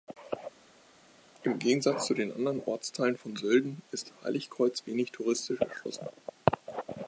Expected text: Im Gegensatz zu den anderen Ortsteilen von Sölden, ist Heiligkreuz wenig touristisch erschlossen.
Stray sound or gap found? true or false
false